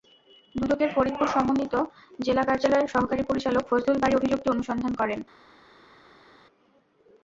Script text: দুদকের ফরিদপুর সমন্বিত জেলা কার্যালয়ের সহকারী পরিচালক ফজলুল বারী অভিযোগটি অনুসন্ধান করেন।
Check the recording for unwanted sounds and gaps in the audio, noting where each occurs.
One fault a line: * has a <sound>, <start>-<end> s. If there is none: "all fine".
all fine